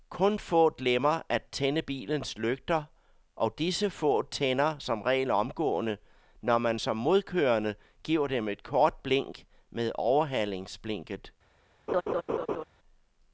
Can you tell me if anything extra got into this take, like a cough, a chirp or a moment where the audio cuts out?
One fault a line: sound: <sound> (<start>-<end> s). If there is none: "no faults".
sound: laugh (11.9-12.6 s)